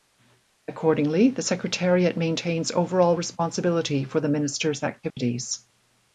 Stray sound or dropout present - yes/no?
yes